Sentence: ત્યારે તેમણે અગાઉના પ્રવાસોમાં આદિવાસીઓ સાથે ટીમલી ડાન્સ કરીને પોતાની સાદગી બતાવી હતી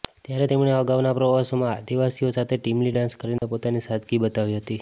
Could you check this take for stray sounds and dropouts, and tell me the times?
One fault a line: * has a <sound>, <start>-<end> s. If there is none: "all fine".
* has a dropout, 3.4-3.4 s